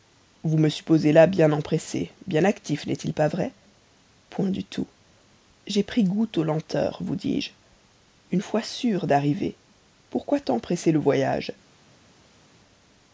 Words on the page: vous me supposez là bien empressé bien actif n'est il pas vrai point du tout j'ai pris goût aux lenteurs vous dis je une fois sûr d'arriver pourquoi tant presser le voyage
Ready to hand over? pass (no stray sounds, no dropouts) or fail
pass